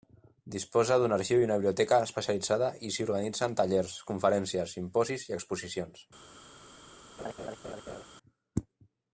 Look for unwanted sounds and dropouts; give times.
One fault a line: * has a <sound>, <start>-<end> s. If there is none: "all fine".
* has a laugh, 7.2-8.0 s